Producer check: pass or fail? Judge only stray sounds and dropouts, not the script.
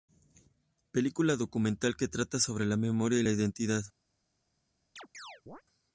fail